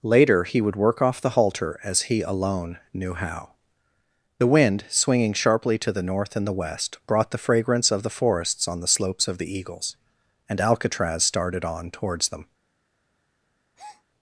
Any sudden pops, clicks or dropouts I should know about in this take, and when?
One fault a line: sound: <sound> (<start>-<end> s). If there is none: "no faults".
sound: breath (13.7-14.0 s)